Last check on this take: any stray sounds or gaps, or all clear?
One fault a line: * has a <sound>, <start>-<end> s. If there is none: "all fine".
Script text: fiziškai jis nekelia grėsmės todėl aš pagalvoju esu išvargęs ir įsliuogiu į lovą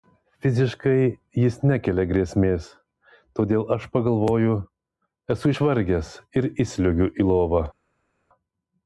all fine